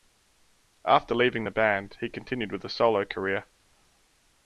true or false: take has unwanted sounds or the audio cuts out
false